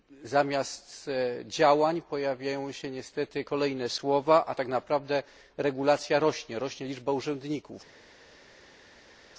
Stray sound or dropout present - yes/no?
no